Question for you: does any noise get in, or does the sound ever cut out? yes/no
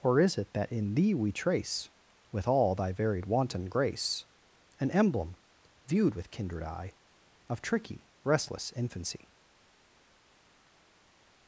no